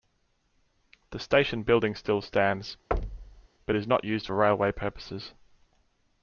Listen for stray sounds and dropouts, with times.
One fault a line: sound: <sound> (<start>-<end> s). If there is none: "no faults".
sound: thud (2.9-3.5 s)